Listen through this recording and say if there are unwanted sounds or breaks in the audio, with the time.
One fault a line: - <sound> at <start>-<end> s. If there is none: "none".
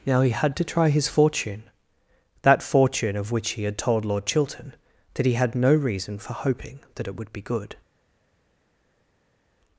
none